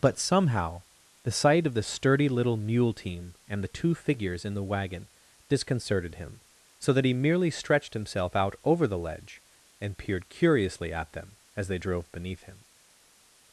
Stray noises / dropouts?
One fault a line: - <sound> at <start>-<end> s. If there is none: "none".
none